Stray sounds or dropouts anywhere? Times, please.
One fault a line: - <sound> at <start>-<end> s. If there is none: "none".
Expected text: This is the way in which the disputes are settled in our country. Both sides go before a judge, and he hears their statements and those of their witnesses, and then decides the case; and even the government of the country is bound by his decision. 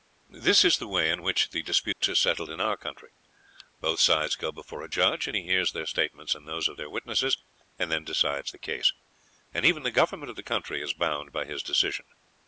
- dropout at 1.9-2.0 s